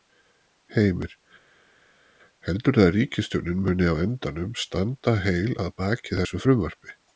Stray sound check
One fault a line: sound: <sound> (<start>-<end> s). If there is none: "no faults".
no faults